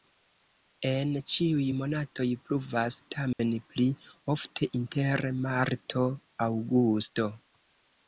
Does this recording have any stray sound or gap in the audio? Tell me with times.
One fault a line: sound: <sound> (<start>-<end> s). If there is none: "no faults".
sound: dropout (3.3-3.4 s)